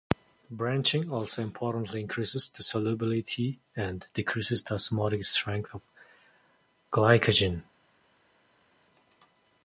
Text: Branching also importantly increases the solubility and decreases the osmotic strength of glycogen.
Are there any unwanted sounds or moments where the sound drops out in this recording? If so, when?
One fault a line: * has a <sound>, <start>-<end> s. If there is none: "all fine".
all fine